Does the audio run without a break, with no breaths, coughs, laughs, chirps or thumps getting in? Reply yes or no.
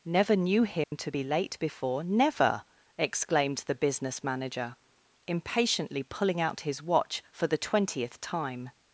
no